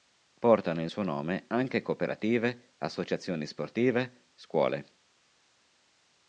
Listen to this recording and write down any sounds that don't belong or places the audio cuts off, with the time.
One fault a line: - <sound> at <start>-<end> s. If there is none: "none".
none